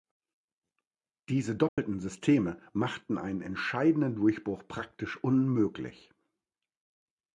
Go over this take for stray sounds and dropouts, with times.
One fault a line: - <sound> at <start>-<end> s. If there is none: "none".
- dropout at 1.7-1.8 s